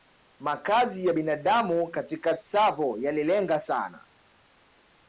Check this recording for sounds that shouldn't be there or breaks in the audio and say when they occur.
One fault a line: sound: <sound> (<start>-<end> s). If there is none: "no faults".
no faults